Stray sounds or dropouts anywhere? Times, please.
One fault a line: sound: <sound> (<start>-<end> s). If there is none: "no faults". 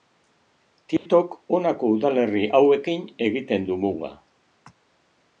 sound: dropout (1.0-1.1 s)